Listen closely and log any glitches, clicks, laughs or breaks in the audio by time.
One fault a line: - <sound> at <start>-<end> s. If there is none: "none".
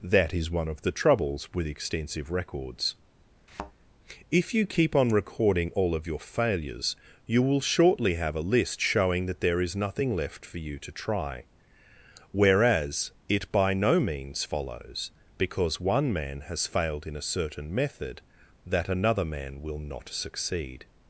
- thud at 3.5-3.7 s